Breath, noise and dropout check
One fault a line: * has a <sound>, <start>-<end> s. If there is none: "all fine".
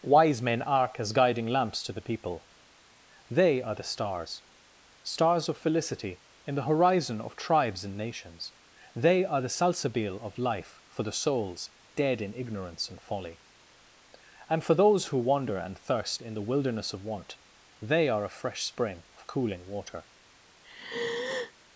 * has a sigh, 20.6-21.5 s